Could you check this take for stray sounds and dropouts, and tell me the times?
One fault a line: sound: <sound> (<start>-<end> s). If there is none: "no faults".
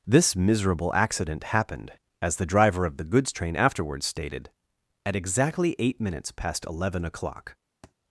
sound: thud (7.8-7.9 s)